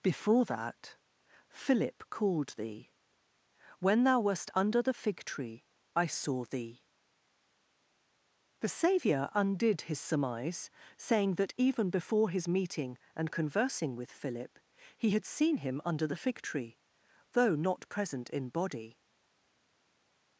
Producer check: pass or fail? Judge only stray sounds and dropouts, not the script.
pass